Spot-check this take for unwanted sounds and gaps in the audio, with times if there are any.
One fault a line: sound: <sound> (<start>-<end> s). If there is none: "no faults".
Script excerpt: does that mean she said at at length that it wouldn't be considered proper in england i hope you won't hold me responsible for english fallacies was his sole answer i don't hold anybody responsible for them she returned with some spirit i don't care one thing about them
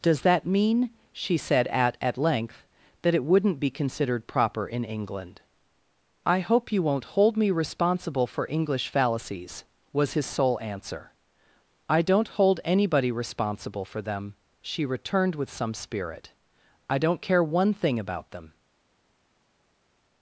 no faults